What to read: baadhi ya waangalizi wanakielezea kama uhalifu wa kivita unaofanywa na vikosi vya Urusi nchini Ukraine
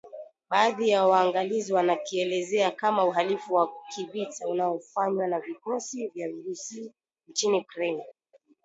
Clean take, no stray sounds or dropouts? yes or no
yes